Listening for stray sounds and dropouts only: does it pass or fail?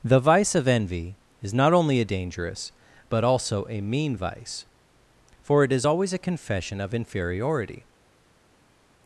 pass